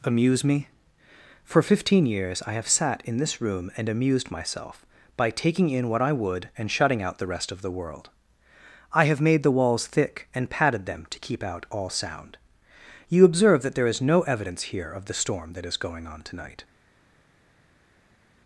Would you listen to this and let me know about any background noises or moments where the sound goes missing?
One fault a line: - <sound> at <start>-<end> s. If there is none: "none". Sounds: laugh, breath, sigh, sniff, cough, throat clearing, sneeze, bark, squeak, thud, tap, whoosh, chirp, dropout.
none